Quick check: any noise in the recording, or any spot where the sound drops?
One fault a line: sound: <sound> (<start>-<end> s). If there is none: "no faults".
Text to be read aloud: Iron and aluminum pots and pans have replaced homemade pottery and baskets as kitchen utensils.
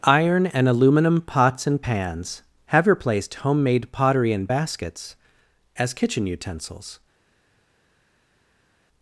no faults